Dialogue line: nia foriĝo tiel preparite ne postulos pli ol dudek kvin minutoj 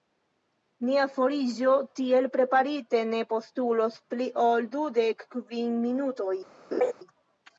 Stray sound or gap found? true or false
true